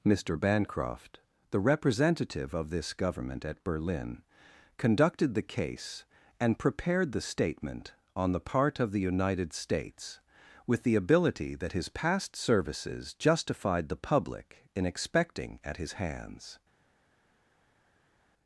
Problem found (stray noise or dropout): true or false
false